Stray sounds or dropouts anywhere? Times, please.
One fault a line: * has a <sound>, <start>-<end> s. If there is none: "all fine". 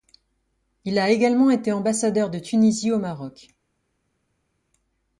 all fine